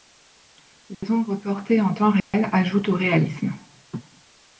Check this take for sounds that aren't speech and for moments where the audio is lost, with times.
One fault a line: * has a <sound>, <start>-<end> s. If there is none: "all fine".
* has a dropout, 0.9-1.0 s
* has a dropout, 2.2-2.3 s